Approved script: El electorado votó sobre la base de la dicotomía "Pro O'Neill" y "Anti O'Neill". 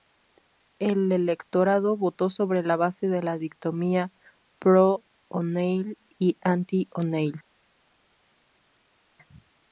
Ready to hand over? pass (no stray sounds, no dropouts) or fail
pass